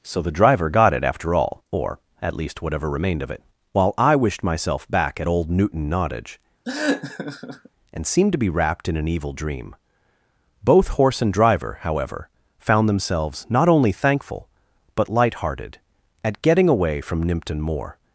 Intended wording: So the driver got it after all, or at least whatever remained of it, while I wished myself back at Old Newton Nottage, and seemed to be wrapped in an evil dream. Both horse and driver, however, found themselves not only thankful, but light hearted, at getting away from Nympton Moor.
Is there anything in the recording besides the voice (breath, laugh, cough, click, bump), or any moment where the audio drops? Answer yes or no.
yes